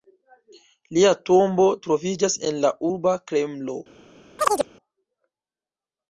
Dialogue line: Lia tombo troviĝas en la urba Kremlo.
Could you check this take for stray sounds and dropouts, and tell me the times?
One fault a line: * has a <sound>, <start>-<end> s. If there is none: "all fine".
* has a chirp, 4.4-4.7 s